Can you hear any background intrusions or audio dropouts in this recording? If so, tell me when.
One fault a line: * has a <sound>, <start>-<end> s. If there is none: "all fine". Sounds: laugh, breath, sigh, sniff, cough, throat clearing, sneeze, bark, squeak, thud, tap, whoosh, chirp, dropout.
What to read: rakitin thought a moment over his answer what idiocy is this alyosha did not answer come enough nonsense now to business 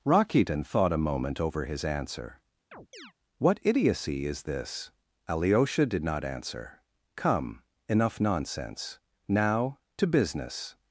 * has a chirp, 2.7-3.1 s